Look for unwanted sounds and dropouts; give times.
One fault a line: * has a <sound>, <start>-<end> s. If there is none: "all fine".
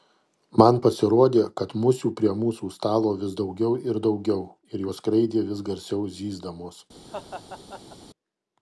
* has a laugh, 7.1-8.0 s